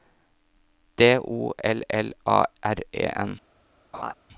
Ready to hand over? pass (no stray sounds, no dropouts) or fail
fail